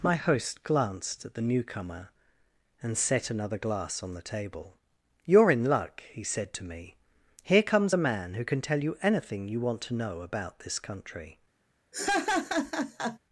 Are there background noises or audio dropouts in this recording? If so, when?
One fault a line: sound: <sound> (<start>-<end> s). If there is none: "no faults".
sound: laugh (11.9-13.2 s)